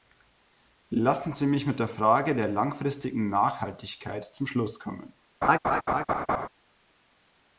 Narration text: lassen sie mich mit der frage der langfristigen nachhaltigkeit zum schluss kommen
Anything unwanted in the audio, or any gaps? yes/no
yes